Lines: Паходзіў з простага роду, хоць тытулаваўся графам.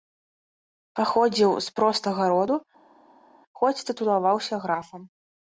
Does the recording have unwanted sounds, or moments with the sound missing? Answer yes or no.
no